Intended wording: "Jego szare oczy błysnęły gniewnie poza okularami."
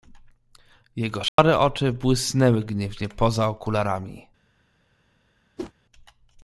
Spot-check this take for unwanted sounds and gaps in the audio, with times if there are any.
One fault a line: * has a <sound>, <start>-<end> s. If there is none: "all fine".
* has a dropout, 1.3-1.4 s
* has a whoosh, 5.6-5.7 s